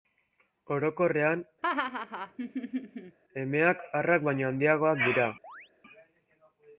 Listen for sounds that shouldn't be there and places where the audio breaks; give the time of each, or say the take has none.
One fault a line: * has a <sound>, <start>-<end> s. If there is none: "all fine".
* has a laugh, 1.6-3.2 s
* has a chirp, 5.4-5.7 s